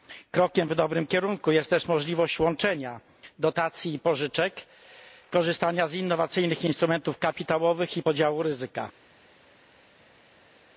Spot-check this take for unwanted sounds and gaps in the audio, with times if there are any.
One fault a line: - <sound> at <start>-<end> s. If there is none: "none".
none